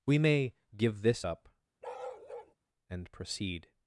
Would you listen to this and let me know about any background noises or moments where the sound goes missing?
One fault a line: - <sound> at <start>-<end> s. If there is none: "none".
- bark at 1.8-2.5 s